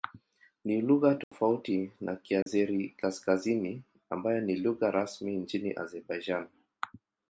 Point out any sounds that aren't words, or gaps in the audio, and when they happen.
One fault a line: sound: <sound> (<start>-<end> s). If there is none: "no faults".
sound: dropout (1.2-1.3 s)
sound: dropout (2.4-2.5 s)